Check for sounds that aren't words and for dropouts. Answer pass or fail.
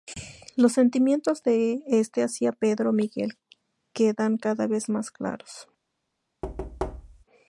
fail